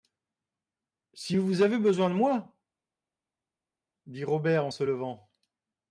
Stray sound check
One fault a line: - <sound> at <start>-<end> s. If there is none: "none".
none